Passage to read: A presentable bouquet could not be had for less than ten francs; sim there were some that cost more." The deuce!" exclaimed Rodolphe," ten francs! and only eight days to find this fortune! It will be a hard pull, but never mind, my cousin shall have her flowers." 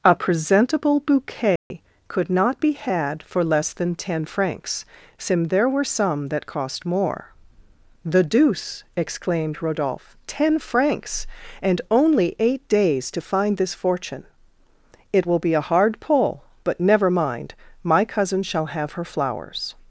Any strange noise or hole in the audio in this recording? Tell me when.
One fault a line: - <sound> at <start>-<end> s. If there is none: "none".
- dropout at 1.6-1.7 s